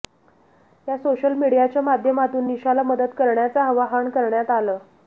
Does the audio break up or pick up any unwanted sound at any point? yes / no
no